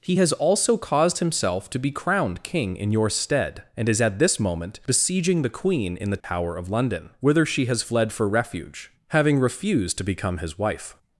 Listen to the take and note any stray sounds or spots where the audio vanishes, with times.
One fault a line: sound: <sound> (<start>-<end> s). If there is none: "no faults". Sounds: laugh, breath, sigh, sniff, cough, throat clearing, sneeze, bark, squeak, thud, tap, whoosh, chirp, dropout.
sound: dropout (6.2-6.2 s)